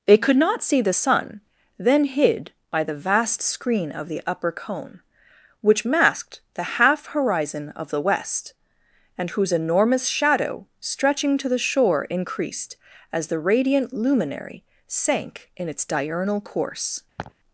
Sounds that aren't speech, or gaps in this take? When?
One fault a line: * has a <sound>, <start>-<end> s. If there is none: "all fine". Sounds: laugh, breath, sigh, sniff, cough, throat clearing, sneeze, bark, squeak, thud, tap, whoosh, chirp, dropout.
* has a laugh, 17.2-17.3 s